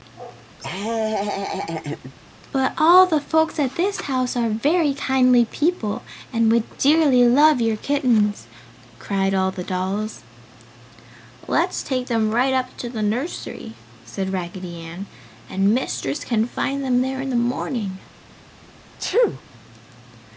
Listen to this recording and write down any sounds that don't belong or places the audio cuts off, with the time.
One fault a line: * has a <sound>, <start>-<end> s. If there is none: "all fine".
* has a laugh, 0.6-2.1 s
* has a sneeze, 19.0-19.4 s